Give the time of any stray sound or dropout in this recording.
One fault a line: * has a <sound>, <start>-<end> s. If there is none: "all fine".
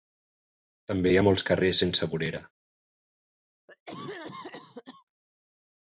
* has a cough, 3.7-5.0 s